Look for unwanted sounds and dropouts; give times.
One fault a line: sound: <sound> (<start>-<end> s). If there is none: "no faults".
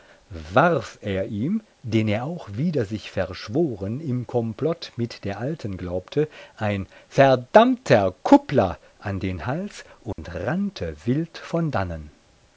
sound: dropout (10.1-10.2 s)